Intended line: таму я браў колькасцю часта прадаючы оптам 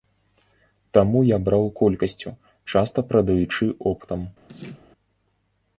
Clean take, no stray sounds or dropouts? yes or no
no